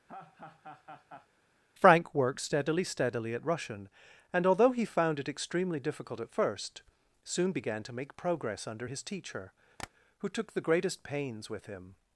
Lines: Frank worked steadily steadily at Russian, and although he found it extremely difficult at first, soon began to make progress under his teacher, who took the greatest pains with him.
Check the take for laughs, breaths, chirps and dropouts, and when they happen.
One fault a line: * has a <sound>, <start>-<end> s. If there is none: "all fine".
* has a laugh, 0.1-1.3 s
* has a tap, 9.8-9.9 s